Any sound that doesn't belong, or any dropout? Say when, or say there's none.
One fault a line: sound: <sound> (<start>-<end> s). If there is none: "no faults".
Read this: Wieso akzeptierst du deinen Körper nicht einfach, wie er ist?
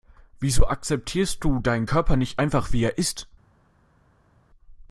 no faults